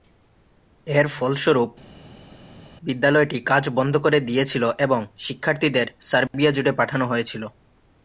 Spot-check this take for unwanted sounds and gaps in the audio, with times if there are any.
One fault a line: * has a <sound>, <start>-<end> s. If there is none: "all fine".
all fine